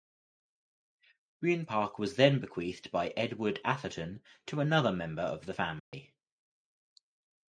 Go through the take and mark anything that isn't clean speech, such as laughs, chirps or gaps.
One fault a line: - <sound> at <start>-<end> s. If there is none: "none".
- dropout at 5.8-5.9 s